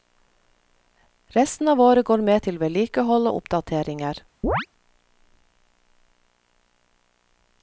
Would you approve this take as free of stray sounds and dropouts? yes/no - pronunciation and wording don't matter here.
no